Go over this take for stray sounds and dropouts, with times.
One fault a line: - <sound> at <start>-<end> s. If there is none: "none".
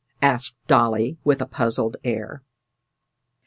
none